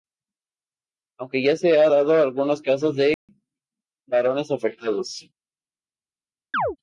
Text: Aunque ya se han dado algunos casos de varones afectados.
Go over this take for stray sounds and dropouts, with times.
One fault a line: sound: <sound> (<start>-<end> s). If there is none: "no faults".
sound: dropout (3.1-3.3 s)
sound: chirp (6.5-6.8 s)